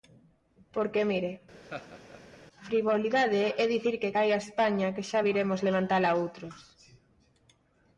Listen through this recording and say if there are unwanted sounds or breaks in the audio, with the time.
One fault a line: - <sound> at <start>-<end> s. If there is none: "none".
- laugh at 1.6-2.4 s